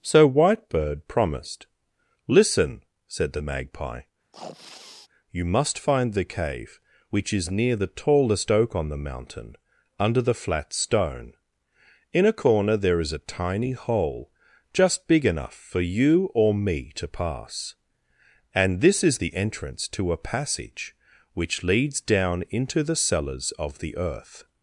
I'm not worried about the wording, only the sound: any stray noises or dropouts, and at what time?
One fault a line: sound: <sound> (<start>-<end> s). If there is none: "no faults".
sound: sneeze (4.3-5.1 s)